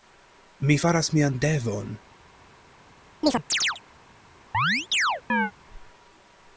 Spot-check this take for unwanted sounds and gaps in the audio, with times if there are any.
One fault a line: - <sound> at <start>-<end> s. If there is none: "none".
- chirp at 3.2-3.8 s
- chirp at 4.5-5.5 s